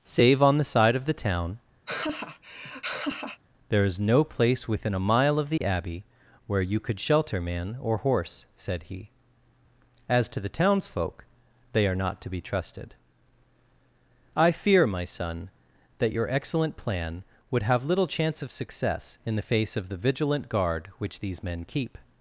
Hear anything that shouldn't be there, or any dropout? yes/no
yes